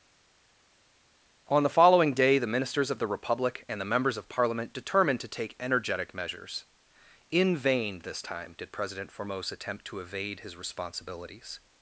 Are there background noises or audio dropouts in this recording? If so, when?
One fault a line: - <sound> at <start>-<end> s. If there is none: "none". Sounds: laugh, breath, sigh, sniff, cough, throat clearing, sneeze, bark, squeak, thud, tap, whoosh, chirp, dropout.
none